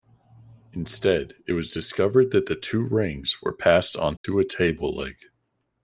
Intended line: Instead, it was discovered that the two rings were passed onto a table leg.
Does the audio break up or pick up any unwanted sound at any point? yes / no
yes